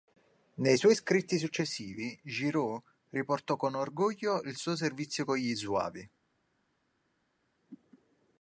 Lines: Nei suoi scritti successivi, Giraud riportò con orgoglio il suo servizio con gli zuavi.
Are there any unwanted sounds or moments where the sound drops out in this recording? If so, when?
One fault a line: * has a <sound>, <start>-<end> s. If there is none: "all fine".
all fine